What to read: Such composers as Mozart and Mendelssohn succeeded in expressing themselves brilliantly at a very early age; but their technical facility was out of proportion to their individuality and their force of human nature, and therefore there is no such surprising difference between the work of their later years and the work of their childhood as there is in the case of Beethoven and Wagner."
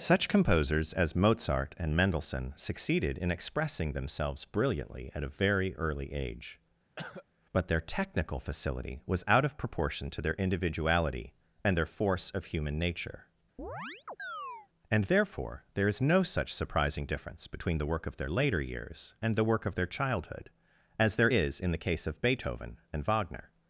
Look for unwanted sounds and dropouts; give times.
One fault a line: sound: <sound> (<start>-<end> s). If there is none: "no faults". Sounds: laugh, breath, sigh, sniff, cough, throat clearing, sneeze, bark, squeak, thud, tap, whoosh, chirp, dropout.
sound: cough (7.0-7.3 s)
sound: chirp (13.6-14.7 s)